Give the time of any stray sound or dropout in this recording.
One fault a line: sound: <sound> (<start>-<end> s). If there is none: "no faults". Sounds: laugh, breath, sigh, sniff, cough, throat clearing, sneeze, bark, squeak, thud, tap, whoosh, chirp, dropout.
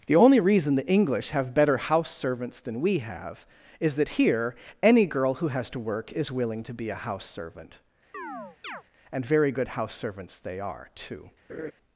sound: chirp (8.1-8.8 s)
sound: laugh (11.5-11.7 s)